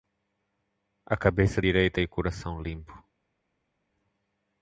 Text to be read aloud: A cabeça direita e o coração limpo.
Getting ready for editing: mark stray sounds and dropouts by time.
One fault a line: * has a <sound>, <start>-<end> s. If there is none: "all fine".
all fine